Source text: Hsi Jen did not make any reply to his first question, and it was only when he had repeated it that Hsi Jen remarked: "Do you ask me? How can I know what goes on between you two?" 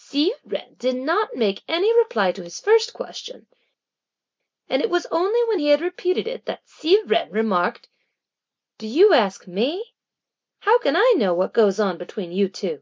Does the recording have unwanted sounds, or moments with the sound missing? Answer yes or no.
no